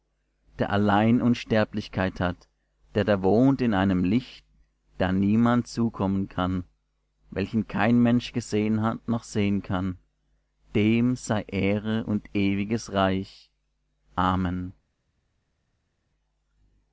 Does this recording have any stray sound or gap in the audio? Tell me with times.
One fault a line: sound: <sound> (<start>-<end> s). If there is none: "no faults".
no faults